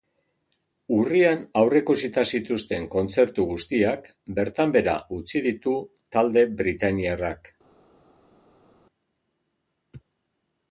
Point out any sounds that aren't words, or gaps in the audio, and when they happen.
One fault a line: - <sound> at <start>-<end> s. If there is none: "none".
none